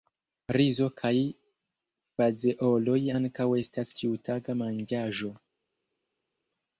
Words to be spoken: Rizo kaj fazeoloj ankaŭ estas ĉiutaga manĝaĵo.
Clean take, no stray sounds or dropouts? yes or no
yes